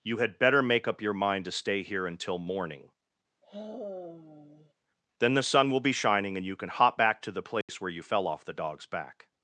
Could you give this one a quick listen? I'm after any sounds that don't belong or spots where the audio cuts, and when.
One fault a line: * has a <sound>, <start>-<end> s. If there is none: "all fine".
* has a sigh, 3.4-4.7 s
* has a dropout, 7.6-7.7 s